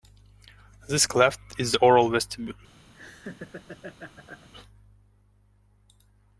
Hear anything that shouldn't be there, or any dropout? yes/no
yes